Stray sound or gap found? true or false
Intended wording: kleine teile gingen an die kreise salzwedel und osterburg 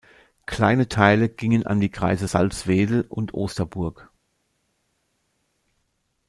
false